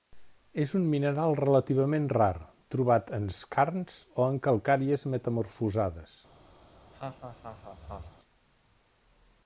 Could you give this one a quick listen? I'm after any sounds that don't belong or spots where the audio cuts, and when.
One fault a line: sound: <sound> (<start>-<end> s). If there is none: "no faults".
sound: laugh (6.6-8.2 s)